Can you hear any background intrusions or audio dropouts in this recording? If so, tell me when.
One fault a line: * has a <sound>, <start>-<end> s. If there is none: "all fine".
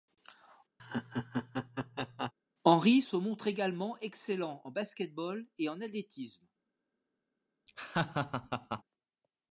* has a laugh, 0.8-2.3 s
* has a laugh, 7.7-8.8 s